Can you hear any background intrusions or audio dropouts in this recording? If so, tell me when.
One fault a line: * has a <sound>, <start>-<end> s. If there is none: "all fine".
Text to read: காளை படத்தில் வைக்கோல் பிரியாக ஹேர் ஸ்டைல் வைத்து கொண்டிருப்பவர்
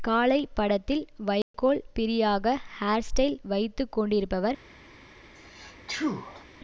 * has a dropout, 1.4-1.5 s
* has a sneeze, 5.4-6.5 s